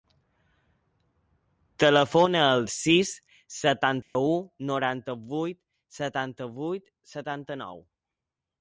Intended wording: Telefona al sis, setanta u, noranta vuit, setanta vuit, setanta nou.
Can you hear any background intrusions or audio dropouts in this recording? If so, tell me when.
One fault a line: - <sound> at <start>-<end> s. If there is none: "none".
- dropout at 4.0-4.2 s